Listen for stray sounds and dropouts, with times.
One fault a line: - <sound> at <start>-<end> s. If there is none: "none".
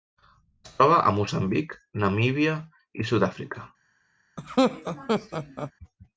- laugh at 4.4-5.7 s